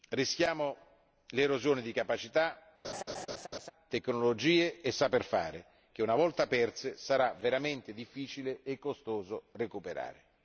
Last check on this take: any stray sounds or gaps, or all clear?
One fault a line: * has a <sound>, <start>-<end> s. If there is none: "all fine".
* has a laugh, 2.8-3.7 s